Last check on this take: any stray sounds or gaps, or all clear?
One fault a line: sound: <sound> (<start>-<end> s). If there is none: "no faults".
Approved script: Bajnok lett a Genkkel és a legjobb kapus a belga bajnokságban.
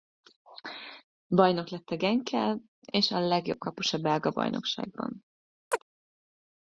sound: chirp (5.7-5.8 s)